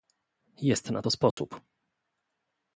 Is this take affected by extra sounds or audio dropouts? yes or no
yes